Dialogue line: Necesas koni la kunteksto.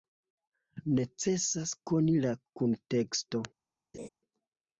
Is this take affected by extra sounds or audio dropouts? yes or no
yes